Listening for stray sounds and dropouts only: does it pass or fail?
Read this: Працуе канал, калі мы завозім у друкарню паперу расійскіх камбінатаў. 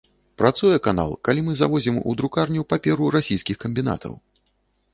pass